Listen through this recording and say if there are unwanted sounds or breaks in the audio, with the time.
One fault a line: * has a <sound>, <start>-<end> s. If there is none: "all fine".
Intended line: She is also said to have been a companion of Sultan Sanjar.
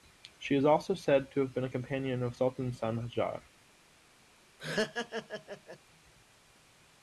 * has a laugh, 4.6-5.8 s